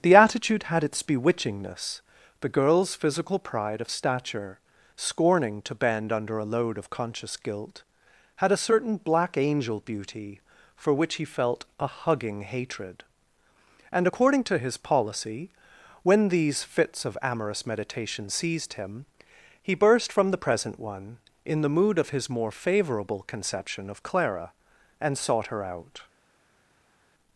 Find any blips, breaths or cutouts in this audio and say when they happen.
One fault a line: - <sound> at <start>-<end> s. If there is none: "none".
none